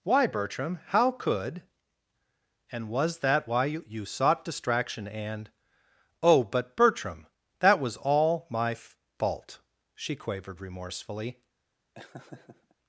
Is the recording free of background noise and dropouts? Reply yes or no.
no